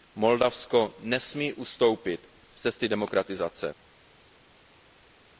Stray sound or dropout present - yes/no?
no